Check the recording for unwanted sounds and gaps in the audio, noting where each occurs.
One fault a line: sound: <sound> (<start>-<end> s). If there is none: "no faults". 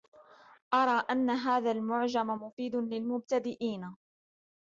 no faults